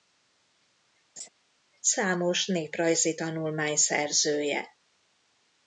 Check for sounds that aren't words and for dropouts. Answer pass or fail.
fail